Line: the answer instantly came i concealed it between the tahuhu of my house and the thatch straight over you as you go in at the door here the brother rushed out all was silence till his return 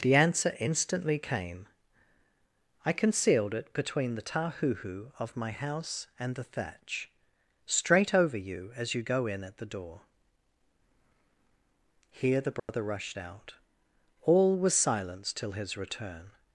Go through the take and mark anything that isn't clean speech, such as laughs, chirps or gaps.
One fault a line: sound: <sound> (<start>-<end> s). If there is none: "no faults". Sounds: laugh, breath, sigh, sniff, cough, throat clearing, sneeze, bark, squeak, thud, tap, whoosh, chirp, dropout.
sound: dropout (12.6-12.7 s)